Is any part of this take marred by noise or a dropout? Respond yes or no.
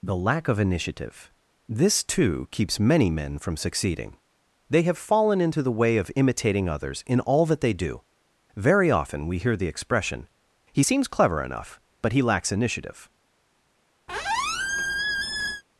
yes